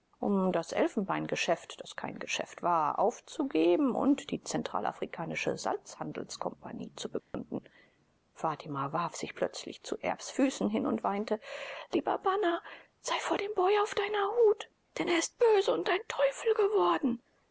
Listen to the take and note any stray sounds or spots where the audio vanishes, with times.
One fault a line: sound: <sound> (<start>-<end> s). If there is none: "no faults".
sound: dropout (7.2-7.3 s)